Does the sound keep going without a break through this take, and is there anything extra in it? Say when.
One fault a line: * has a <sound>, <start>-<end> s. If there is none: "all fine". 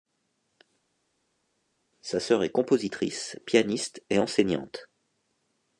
all fine